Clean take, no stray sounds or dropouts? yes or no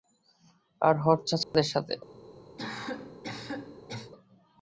no